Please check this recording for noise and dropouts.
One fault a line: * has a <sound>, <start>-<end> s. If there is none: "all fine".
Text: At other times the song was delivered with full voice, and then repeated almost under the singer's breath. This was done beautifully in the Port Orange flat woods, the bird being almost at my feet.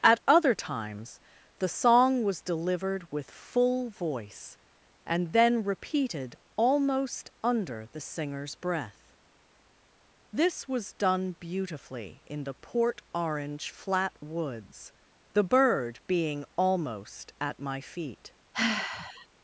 * has a sigh, 18.5-19.3 s